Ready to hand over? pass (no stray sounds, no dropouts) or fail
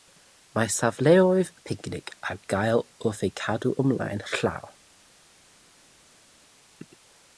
pass